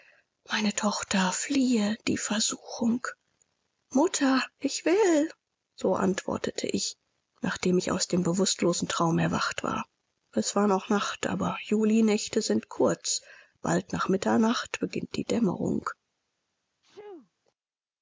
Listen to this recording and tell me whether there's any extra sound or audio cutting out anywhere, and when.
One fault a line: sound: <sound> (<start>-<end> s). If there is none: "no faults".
sound: sneeze (16.8-17.3 s)